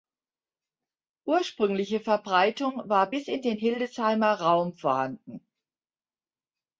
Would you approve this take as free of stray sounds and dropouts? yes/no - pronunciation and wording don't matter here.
yes